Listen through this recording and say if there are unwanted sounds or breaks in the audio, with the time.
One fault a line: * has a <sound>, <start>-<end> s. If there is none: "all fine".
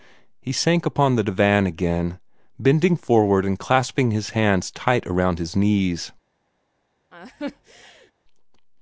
* has a laugh, 7.1-8.1 s